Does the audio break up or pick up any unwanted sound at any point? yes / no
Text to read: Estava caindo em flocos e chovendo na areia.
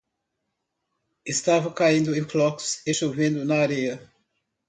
no